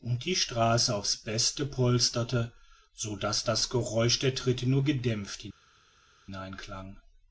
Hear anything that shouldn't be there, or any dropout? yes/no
no